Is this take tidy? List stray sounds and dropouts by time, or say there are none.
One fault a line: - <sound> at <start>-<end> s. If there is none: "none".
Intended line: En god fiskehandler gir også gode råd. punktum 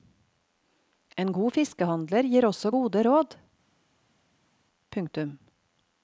none